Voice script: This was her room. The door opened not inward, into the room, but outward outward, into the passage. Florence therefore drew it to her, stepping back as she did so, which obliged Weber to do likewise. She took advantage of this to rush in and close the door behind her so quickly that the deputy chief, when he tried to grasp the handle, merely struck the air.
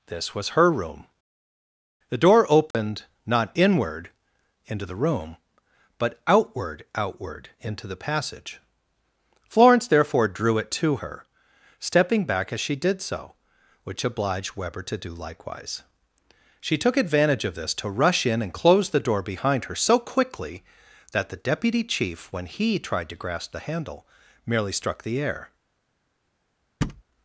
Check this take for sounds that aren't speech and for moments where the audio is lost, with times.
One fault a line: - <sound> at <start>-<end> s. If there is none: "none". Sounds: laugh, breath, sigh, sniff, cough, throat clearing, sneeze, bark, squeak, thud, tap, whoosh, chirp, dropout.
- dropout at 2.7-2.7 s
- thud at 26.8-27.0 s